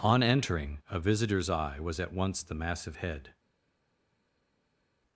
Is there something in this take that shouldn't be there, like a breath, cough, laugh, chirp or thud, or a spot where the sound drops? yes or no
no